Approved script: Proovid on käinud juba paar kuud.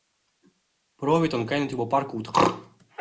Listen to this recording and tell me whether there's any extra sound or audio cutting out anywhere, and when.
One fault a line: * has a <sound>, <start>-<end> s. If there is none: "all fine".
all fine